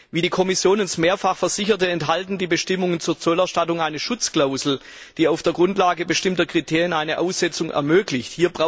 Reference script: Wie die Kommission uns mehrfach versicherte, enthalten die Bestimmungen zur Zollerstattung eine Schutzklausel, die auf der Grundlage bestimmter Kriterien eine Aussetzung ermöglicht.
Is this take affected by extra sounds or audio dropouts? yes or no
no